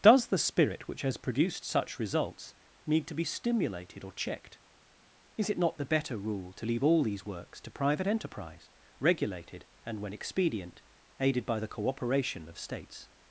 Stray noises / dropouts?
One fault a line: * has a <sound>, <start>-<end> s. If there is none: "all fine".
all fine